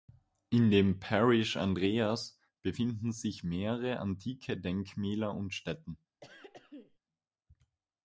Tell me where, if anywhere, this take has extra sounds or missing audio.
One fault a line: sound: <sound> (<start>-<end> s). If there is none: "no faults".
sound: throat clearing (6.2-7.0 s)